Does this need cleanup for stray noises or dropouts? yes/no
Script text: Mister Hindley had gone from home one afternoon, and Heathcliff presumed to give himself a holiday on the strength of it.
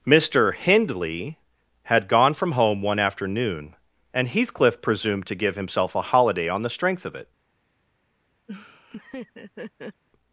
yes